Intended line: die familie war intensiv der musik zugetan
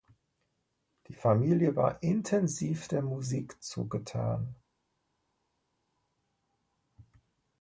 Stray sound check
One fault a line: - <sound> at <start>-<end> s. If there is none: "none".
none